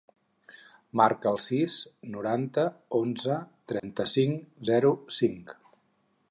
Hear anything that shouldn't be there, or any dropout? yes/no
yes